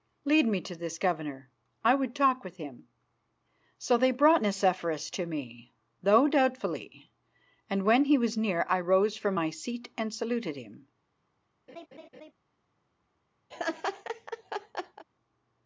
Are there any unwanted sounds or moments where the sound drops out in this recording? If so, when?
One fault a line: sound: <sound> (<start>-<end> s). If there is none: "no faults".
sound: laugh (11.7-12.3 s)
sound: laugh (13.5-15.1 s)